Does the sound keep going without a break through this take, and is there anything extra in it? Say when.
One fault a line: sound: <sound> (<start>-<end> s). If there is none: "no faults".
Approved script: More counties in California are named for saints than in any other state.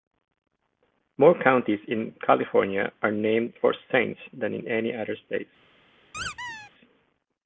sound: squeak (6.1-6.7 s)